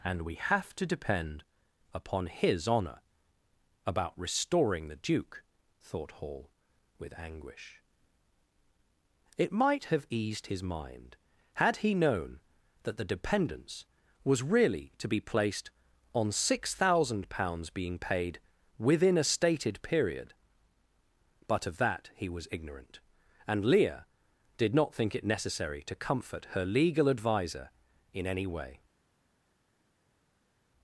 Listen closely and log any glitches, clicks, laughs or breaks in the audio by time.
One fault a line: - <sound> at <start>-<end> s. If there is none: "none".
none